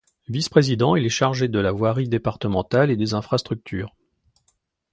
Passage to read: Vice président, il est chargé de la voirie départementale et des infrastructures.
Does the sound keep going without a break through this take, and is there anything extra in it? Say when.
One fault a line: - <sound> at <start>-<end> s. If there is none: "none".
none